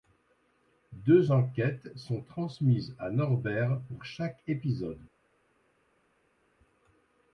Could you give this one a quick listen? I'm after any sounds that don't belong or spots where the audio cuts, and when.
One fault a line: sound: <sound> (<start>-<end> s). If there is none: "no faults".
no faults